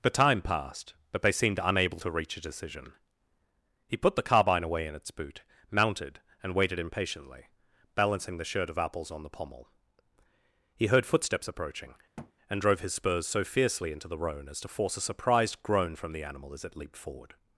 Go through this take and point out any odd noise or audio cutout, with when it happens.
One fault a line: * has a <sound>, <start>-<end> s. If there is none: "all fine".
* has a thud, 12.2-12.3 s